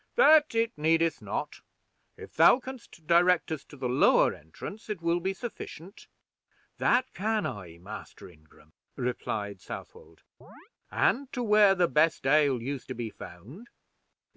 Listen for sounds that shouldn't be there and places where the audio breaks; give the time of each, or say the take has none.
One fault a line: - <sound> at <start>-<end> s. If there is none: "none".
- chirp at 10.4-10.7 s